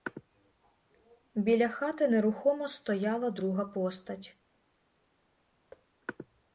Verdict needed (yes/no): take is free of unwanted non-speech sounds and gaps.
no